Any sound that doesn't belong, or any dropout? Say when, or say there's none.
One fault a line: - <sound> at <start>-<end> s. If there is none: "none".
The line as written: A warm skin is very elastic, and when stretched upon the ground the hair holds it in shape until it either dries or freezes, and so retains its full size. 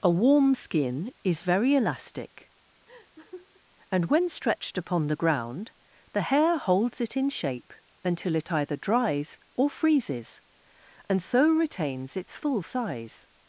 - laugh at 2.9-3.6 s